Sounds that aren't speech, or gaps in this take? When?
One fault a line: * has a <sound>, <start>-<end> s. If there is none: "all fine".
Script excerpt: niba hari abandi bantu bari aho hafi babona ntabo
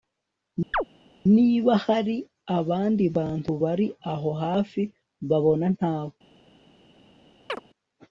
* has a chirp, 0.7-0.8 s
* has a chirp, 7.5-7.6 s